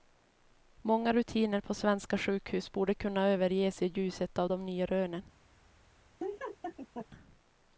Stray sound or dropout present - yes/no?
yes